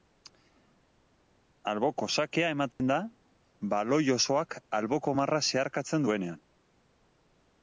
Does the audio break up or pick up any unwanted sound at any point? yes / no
yes